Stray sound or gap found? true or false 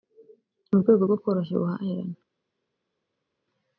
false